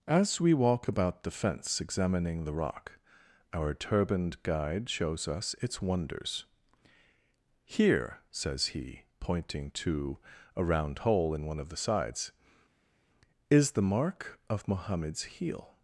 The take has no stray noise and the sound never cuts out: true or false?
true